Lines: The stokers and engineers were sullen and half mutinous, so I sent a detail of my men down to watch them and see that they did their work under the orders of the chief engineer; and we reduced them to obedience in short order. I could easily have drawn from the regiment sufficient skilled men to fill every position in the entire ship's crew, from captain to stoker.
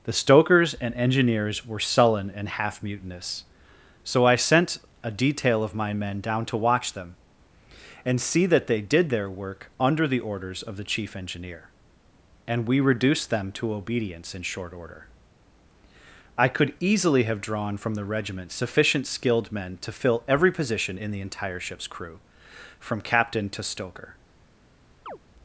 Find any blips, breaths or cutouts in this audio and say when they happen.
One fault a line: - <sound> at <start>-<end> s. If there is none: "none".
- chirp at 25.1-25.2 s